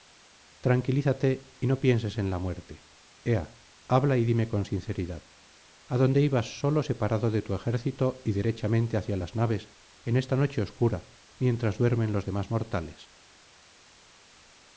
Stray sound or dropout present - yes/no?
no